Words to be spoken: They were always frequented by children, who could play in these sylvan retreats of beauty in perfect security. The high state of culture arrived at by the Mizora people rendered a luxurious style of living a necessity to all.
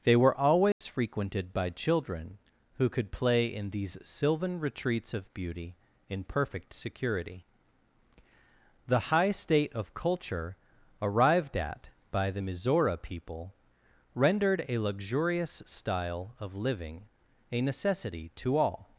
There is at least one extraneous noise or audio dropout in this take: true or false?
true